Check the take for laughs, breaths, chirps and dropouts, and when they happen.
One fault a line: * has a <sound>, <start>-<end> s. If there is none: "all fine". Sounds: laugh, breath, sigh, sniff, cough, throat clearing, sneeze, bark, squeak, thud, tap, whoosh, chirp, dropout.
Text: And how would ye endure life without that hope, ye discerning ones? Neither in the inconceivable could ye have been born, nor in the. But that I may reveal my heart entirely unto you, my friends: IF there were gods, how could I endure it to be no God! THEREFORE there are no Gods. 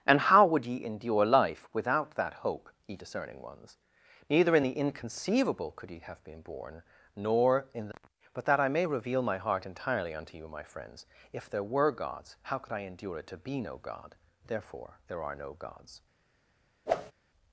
* has a whoosh, 16.9-17.1 s